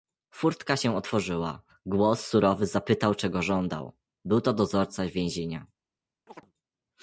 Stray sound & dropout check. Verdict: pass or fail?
fail